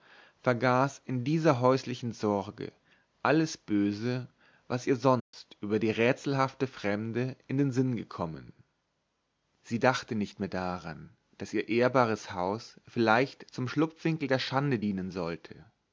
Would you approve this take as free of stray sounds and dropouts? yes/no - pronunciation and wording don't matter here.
no